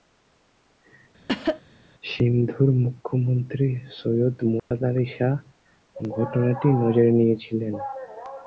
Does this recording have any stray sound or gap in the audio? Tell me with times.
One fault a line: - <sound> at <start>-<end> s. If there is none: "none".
- cough at 1.3-1.6 s
- dropout at 4.6-4.7 s